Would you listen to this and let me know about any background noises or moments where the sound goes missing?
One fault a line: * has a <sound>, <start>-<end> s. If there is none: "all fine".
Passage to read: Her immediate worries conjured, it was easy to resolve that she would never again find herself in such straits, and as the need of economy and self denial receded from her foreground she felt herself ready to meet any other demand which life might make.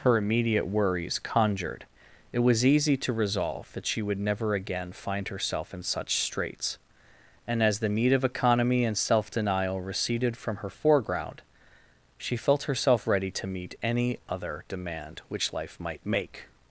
all fine